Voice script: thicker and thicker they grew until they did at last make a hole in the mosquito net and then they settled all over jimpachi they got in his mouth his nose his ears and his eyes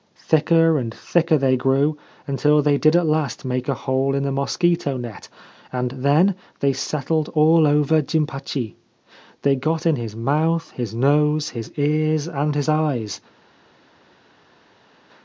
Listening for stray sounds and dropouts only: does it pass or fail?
pass